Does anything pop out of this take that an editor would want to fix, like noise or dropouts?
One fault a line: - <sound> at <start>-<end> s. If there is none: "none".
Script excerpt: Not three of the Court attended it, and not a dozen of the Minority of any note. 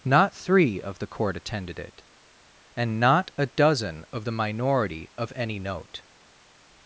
none